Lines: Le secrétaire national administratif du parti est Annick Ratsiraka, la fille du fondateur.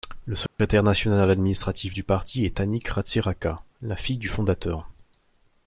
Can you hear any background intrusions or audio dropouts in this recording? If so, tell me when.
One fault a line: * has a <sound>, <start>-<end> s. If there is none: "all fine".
* has a dropout, 0.5-0.6 s